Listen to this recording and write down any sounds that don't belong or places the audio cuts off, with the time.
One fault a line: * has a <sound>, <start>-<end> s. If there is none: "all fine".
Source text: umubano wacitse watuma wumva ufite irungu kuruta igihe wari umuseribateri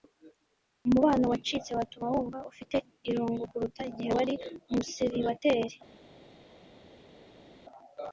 all fine